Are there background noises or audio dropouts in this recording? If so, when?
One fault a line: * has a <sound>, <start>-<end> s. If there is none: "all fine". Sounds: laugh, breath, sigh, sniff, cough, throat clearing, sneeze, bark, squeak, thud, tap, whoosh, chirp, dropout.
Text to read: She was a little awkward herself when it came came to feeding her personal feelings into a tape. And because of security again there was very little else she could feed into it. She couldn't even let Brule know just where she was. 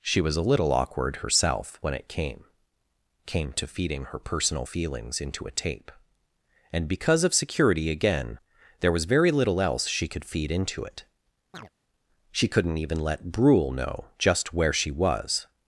* has a chirp, 11.5-11.7 s